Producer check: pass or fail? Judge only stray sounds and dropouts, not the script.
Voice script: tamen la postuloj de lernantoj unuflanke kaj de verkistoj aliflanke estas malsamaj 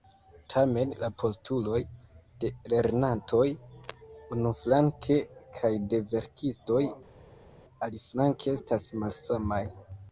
pass